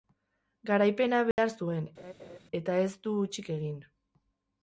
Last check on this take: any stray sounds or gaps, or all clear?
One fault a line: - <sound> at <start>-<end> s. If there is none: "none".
- dropout at 1.3-1.4 s
- laugh at 2.0-2.4 s